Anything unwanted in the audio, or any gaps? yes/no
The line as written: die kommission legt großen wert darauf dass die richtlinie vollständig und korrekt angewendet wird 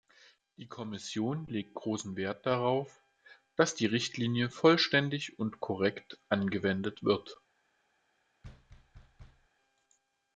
yes